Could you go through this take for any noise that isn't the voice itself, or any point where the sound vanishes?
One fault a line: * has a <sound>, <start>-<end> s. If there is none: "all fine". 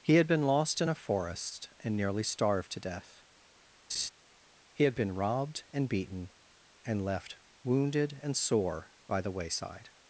* has a laugh, 3.9-4.1 s